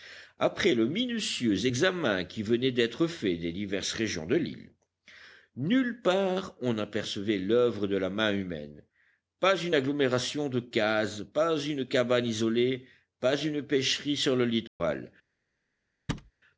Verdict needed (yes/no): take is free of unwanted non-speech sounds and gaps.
no